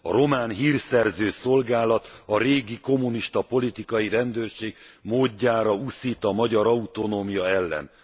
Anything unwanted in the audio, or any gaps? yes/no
no